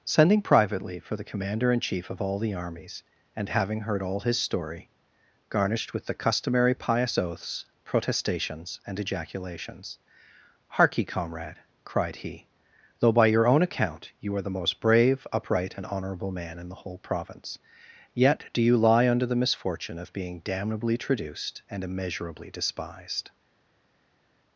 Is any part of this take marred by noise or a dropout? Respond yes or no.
no